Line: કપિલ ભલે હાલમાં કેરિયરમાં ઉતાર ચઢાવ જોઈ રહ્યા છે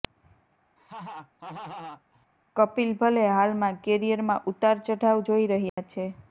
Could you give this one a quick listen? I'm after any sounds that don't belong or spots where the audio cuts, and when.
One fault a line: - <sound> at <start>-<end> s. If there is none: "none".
- laugh at 0.8-2.3 s
- dropout at 5.7-5.8 s